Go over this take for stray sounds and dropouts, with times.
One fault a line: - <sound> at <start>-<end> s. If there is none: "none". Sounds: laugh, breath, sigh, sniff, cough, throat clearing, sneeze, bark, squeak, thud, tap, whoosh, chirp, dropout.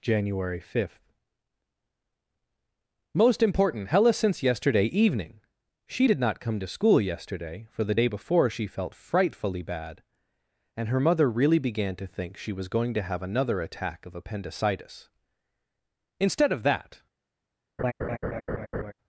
- laugh at 17.8-18.9 s